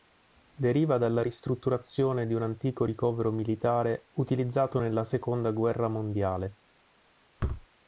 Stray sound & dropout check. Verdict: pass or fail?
fail